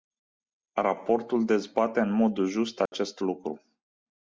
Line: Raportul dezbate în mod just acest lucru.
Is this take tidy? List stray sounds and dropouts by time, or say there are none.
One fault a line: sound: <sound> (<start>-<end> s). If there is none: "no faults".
sound: dropout (2.9-2.9 s)